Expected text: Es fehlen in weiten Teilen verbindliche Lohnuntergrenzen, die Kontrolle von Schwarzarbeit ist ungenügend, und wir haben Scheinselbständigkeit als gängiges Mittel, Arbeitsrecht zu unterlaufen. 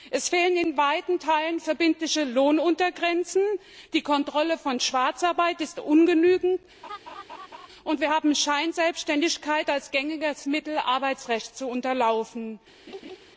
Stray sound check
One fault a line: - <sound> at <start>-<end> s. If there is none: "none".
- laugh at 6.8-7.7 s
- laugh at 12.9-13.2 s